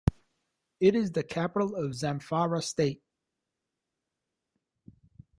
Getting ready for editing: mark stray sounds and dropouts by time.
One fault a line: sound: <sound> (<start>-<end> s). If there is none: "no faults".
no faults